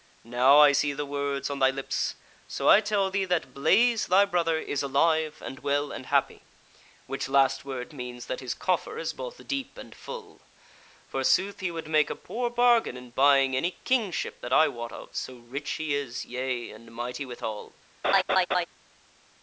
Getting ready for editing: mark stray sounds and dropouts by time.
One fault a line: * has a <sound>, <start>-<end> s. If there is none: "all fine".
* has a laugh, 18.0-18.7 s